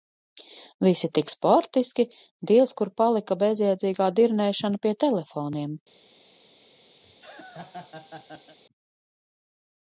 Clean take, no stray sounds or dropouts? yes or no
no